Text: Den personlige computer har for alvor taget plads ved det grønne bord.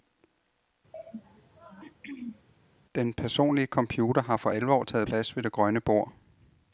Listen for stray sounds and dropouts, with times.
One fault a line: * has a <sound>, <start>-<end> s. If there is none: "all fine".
* has a throat clearing, 0.9-2.5 s